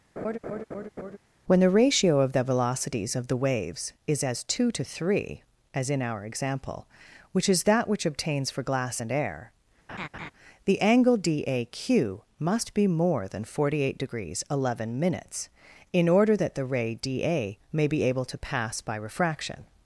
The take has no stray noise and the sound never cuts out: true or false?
false